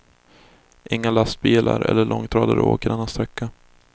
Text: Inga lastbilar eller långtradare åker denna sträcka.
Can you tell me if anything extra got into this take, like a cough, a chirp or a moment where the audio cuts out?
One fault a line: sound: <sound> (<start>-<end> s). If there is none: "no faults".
no faults